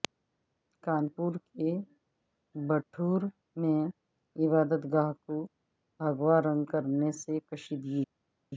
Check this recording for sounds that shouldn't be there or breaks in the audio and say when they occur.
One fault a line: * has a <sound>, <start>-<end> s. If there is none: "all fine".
all fine